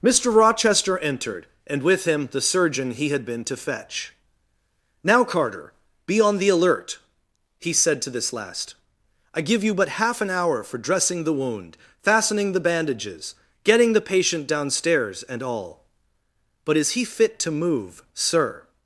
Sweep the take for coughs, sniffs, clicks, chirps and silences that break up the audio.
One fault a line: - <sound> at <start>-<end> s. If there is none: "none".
none